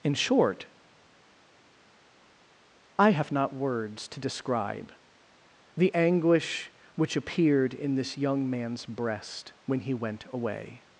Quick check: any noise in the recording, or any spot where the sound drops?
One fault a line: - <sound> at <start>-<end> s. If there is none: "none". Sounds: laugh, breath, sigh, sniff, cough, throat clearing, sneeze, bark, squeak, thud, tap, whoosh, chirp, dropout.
none